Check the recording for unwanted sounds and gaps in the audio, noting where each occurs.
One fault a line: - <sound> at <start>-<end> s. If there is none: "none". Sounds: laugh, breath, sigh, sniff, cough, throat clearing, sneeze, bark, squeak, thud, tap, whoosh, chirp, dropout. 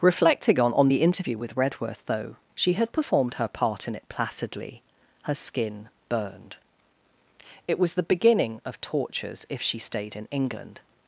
none